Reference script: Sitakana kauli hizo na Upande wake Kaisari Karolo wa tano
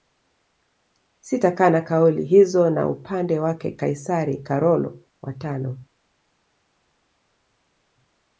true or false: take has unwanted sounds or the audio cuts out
false